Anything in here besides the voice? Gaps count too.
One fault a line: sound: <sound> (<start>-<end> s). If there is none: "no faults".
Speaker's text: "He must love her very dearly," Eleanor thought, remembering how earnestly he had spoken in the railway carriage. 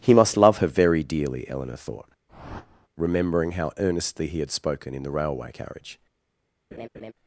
sound: whoosh (2.3-2.9 s)
sound: laugh (6.7-7.1 s)